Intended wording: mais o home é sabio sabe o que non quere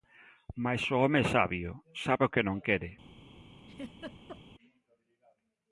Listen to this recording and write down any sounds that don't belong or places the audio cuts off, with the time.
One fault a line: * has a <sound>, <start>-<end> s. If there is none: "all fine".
* has a laugh, 3.6-4.4 s